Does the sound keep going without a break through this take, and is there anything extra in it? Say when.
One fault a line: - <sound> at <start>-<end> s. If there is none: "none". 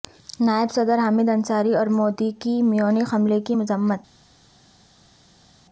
none